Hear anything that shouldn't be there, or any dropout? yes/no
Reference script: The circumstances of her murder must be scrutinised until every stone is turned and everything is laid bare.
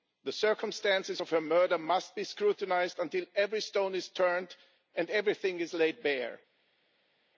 no